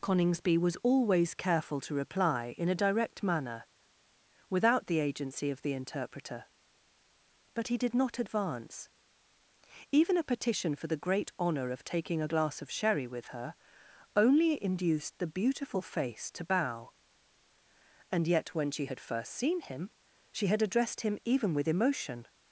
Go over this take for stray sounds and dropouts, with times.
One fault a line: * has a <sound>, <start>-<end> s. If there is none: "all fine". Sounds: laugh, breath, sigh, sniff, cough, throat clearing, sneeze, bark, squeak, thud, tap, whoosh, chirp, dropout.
all fine